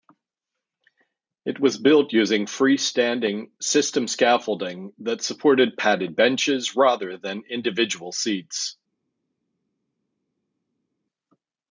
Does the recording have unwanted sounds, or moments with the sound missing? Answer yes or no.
no